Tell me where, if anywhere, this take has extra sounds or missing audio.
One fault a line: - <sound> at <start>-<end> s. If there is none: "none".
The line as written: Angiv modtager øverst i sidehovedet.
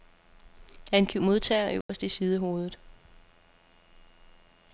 - dropout at 1.8-1.9 s